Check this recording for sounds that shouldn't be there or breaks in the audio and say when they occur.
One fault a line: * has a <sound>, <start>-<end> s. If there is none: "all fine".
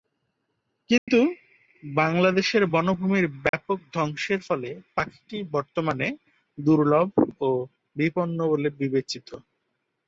* has a dropout, 1.0-1.1 s
* has a dropout, 3.5-3.5 s